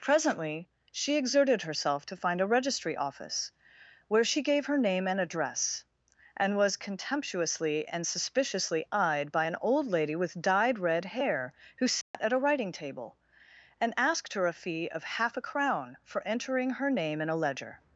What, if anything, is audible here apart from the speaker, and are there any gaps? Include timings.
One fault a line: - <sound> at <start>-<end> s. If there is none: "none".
- dropout at 12.0-12.1 s